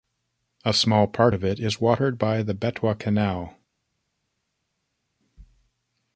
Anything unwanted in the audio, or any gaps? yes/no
no